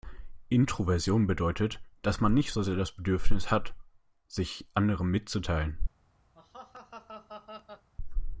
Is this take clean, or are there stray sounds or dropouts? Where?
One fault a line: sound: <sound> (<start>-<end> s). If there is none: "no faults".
sound: laugh (6.3-7.9 s)